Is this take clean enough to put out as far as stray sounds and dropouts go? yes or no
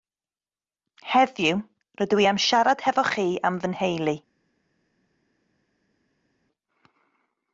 yes